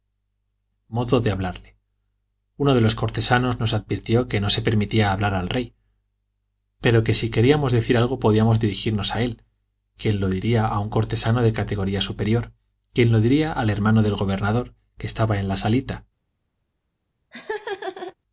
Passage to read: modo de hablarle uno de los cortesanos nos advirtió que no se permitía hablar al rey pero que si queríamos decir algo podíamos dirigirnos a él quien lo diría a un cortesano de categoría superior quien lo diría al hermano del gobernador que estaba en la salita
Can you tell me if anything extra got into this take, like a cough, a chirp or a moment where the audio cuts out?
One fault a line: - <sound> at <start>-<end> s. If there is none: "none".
- laugh at 17.3-18.1 s